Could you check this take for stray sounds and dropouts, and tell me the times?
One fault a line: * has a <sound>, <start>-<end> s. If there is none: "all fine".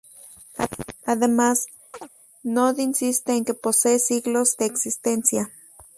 * has a chirp, 1.9-2.1 s